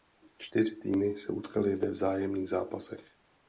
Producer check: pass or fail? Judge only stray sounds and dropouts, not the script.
pass